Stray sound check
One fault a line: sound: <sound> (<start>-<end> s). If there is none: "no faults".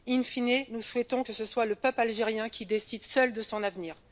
no faults